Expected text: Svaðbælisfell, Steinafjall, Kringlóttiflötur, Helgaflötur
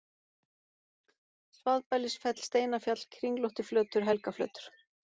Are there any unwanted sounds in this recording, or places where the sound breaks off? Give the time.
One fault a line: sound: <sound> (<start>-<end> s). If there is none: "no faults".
no faults